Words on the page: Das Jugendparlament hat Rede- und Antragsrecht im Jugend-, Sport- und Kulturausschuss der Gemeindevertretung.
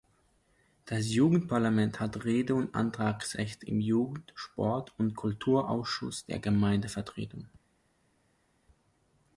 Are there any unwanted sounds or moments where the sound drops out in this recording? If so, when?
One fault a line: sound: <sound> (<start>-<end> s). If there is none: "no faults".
no faults